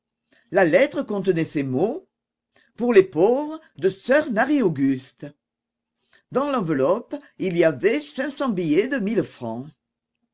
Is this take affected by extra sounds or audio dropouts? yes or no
no